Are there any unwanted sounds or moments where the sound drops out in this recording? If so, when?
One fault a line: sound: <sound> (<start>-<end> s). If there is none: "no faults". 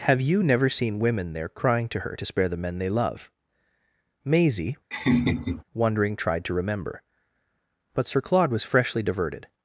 sound: laugh (4.9-5.6 s)